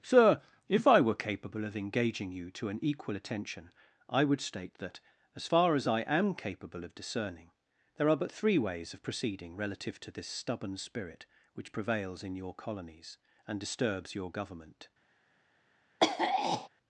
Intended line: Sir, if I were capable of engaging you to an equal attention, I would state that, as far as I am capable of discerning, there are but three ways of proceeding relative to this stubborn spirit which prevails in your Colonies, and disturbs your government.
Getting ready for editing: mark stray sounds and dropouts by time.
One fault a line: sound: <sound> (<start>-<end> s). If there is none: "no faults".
sound: throat clearing (16.0-16.7 s)